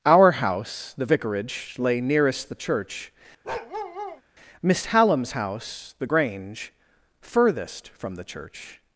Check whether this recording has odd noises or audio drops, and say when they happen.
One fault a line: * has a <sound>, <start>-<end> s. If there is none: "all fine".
* has a bark, 3.4-4.2 s